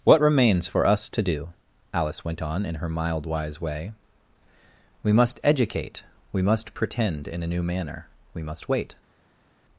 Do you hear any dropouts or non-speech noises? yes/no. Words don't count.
no